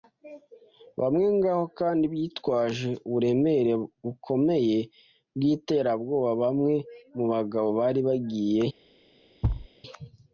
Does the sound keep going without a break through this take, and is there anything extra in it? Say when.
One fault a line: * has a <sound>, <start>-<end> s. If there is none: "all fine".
* has a thud, 9.4-9.7 s